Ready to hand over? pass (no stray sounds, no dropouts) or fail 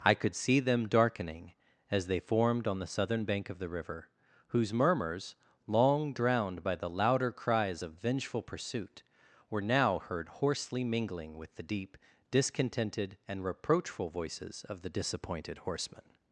pass